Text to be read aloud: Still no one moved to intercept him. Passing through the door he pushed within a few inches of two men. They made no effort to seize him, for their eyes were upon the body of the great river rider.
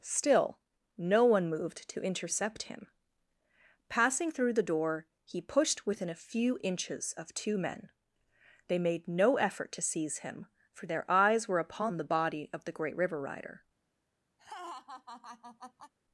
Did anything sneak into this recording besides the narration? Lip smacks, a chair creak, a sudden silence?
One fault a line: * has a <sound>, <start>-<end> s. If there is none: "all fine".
* has a laugh, 14.4-15.9 s